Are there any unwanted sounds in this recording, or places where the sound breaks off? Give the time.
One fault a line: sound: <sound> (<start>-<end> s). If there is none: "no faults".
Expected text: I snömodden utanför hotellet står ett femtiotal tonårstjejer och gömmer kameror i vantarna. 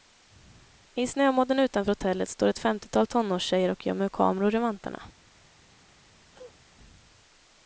sound: cough (6.3-6.6 s)